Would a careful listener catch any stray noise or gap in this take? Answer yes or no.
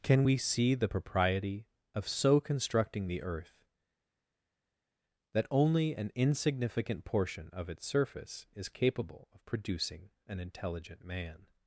no